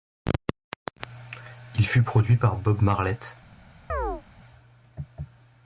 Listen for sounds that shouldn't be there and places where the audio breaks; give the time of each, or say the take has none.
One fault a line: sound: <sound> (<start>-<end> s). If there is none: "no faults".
sound: chirp (3.9-4.2 s)